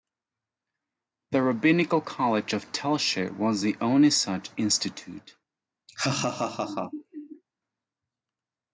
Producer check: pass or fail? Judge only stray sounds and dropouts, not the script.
fail